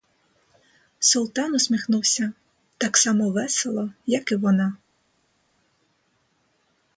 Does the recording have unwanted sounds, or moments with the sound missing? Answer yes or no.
no